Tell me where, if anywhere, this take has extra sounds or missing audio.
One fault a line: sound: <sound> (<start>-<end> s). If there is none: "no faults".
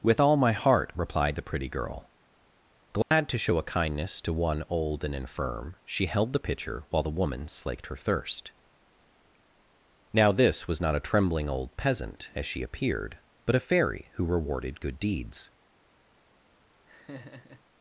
sound: dropout (3.0-3.1 s)
sound: laugh (16.9-17.6 s)